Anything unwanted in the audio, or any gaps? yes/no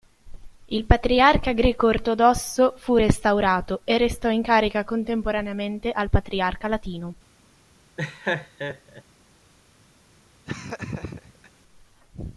yes